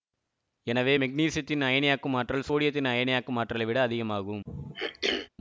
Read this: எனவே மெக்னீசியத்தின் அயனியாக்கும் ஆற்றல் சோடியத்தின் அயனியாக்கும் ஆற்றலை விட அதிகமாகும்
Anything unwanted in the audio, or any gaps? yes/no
yes